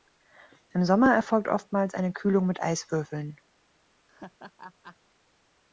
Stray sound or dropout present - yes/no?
yes